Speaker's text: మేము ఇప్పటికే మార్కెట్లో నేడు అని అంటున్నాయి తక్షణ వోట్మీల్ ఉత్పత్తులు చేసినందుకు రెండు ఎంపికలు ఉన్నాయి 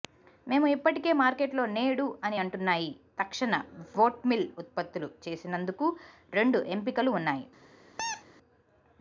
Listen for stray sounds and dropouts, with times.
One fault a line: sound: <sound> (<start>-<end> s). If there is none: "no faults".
sound: squeak (8.0-8.2 s)